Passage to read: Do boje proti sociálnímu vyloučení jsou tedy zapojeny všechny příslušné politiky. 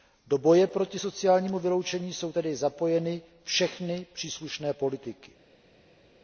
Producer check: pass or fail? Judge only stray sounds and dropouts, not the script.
pass